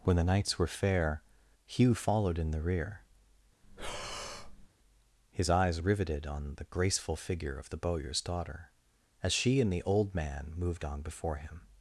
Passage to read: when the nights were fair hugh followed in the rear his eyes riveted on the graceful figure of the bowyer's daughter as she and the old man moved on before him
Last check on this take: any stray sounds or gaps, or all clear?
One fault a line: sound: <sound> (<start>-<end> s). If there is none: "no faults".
sound: breath (3.6-4.7 s)